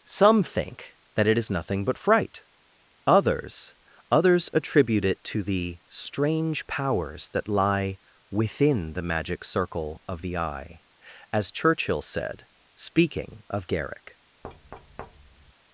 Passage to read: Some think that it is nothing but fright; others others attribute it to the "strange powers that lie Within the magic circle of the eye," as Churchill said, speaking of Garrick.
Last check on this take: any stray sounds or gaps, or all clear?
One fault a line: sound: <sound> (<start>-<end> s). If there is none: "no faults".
sound: thud (14.4-15.5 s)